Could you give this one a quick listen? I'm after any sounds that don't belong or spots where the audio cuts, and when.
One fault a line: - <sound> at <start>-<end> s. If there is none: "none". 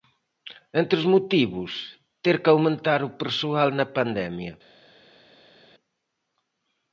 none